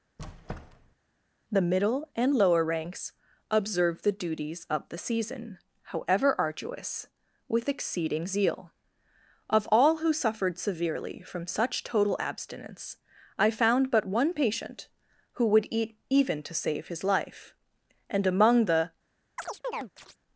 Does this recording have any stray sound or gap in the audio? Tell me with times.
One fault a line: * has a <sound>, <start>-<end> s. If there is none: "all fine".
* has a squeak, 0.2-1.0 s
* has a chirp, 19.4-20.2 s